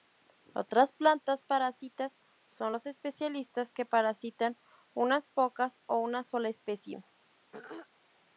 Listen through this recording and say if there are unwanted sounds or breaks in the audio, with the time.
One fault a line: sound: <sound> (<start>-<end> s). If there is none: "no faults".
sound: throat clearing (7.5-7.9 s)